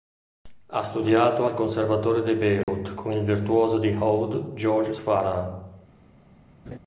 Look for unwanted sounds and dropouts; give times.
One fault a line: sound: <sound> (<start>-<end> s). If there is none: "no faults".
sound: dropout (2.6-2.7 s)
sound: laugh (6.7-6.8 s)